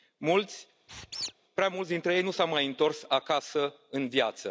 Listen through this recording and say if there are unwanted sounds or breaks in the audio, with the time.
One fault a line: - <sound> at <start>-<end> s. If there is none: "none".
- squeak at 0.9-1.3 s